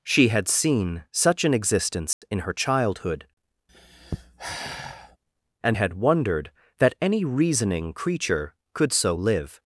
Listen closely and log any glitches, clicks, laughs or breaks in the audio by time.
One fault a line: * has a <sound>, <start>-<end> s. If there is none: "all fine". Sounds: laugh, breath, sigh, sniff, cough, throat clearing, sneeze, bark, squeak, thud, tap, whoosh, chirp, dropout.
* has a dropout, 2.1-2.2 s
* has a sigh, 3.7-5.2 s